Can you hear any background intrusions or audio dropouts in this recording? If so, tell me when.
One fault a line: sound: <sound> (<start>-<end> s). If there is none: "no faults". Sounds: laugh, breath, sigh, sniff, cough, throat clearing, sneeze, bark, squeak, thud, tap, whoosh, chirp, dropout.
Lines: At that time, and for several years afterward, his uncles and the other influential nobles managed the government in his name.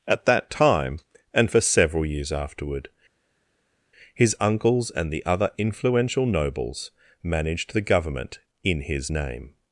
no faults